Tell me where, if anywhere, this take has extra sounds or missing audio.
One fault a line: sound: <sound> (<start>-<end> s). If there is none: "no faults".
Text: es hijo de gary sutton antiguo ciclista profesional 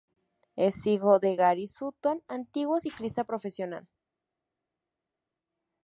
no faults